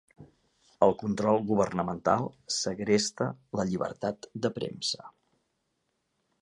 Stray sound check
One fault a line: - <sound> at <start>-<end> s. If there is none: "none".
none